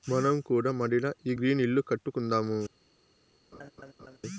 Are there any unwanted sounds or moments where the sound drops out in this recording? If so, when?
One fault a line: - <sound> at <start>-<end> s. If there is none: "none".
- laugh at 3.5-4.2 s